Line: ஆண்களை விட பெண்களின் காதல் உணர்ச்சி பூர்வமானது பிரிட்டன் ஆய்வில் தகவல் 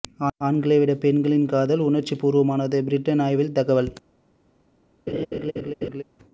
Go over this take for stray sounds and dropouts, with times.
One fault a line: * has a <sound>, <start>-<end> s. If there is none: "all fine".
* has a laugh, 5.1-6.0 s